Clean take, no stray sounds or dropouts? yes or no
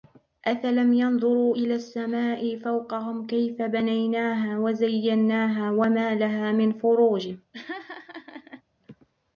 no